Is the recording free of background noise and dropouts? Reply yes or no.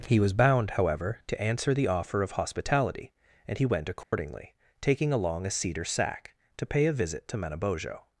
no